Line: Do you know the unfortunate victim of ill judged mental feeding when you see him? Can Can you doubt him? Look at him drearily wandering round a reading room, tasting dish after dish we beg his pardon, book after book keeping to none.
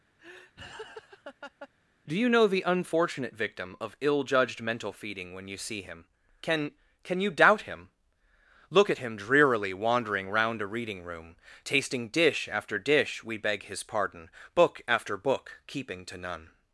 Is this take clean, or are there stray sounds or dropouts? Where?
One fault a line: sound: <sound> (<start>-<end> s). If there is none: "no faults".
sound: laugh (0.2-1.7 s)